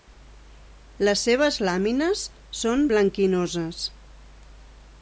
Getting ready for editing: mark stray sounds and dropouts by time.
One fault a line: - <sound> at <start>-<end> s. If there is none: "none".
none